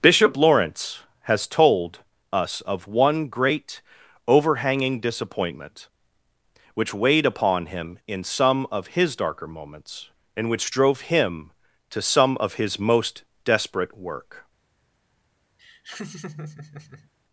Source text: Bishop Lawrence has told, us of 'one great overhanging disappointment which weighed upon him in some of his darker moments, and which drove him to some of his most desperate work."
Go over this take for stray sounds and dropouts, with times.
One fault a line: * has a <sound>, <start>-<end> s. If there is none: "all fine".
* has a laugh, 15.6-17.1 s